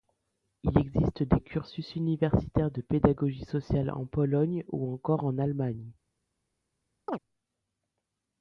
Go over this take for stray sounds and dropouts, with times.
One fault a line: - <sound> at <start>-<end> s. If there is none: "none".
- chirp at 7.1-7.2 s